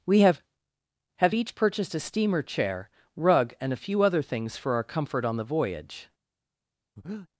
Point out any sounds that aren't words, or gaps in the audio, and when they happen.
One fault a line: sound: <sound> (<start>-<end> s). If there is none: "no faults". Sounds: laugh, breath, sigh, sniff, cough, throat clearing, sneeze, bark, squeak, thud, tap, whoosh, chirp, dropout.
sound: breath (7.0-7.3 s)